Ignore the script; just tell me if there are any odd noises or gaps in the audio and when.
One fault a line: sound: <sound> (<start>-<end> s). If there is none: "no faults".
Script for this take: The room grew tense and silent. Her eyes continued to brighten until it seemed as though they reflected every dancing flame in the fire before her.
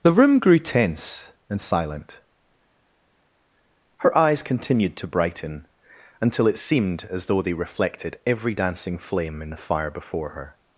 no faults